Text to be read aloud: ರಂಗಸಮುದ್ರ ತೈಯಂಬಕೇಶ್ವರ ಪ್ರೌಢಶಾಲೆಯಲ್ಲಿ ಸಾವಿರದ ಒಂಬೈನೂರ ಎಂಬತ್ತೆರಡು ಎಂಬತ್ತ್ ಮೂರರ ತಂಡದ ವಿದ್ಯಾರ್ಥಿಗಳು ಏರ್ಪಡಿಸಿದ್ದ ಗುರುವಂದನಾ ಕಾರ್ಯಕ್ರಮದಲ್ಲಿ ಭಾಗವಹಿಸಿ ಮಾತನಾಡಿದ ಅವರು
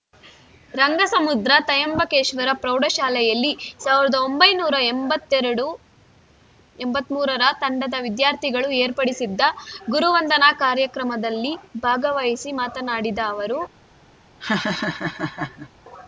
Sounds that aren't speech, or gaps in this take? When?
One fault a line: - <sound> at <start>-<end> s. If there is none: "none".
- laugh at 14.4-15.7 s